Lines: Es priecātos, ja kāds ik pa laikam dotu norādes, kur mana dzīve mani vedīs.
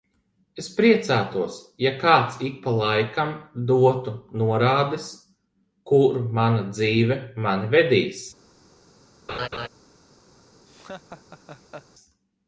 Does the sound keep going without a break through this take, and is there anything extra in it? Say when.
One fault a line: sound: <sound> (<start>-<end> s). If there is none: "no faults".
sound: laugh (9.3-9.7 s)
sound: laugh (10.7-11.9 s)